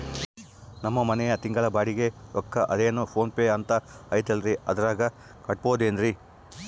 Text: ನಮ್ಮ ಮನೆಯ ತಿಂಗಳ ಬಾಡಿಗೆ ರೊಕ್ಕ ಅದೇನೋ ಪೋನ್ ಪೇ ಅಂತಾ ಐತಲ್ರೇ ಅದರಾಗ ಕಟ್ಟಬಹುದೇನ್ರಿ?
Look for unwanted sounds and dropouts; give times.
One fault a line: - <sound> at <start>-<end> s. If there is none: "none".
none